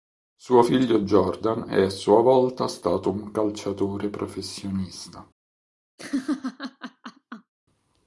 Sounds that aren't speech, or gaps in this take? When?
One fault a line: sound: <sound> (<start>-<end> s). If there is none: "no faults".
sound: laugh (6.0-7.5 s)